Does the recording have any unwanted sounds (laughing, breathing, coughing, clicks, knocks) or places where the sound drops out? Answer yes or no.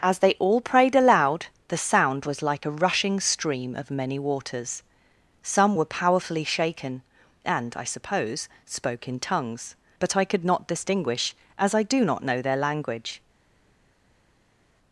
no